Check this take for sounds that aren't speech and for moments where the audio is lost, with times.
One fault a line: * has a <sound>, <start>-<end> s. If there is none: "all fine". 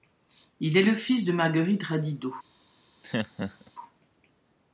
* has a laugh, 3.0-3.7 s